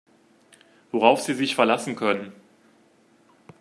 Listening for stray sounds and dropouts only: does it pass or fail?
pass